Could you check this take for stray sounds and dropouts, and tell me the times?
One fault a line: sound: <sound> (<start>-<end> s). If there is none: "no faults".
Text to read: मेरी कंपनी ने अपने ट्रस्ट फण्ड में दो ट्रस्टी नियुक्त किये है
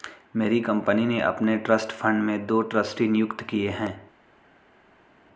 no faults